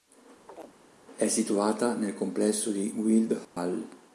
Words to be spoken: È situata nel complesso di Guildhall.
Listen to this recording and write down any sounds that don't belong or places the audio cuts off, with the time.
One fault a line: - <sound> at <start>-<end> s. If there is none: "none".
- chirp at 0.5-0.7 s
- dropout at 3.4-3.6 s